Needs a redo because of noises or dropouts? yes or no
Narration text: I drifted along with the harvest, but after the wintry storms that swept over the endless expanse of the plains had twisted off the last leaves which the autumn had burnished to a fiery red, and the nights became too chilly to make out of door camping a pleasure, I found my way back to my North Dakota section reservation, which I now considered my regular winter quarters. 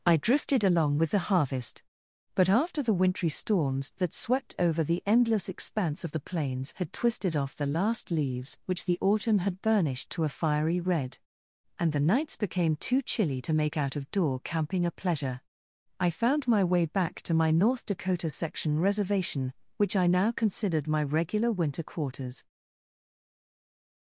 no